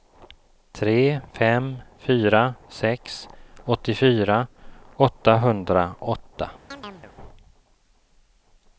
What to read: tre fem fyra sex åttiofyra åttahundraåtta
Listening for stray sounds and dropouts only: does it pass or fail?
fail